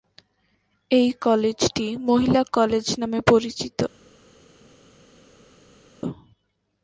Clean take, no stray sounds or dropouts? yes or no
yes